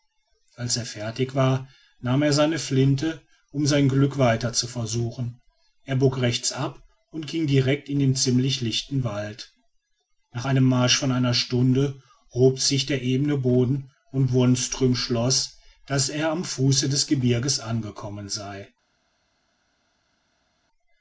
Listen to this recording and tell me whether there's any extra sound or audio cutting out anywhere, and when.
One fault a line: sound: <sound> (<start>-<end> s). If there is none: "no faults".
no faults